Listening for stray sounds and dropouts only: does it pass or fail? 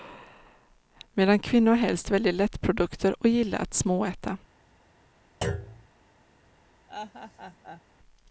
fail